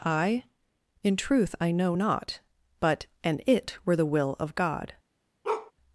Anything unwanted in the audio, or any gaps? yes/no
yes